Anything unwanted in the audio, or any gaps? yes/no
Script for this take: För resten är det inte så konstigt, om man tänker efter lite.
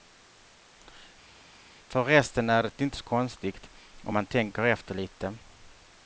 no